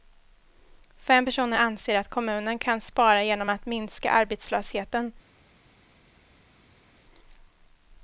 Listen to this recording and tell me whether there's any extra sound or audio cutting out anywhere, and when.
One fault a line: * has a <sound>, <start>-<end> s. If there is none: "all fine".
all fine